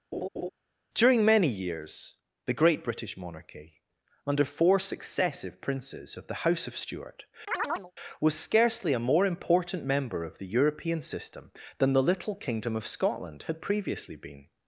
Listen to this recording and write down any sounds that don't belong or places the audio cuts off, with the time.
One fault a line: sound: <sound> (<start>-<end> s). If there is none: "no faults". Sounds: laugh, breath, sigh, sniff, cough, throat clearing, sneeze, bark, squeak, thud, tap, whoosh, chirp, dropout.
sound: laugh (0.1-0.5 s)
sound: chirp (7.5-7.9 s)